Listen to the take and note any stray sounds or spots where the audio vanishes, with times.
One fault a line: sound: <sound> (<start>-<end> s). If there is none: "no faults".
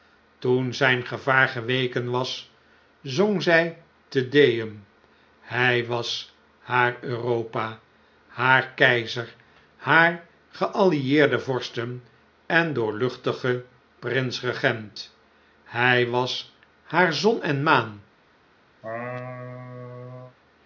sound: laugh (18.8-20.4 s)